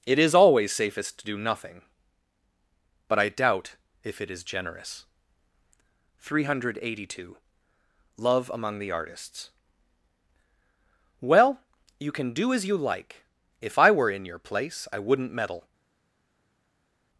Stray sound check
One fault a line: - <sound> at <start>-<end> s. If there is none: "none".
none